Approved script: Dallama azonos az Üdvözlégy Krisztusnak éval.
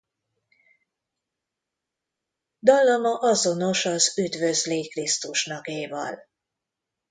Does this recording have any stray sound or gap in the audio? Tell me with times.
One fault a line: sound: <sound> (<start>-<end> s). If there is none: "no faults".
no faults